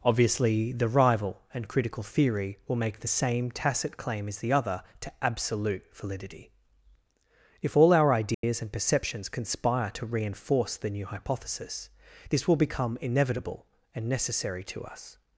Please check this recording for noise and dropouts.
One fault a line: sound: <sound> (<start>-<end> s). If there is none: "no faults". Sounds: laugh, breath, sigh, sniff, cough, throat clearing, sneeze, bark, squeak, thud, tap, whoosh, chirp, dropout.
sound: dropout (8.3-8.4 s)